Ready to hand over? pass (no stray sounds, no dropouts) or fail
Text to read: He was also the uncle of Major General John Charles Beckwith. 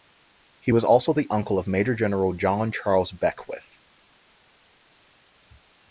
pass